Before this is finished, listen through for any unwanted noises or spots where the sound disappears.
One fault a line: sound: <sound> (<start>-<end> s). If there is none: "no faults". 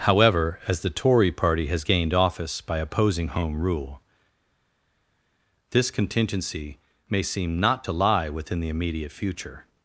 no faults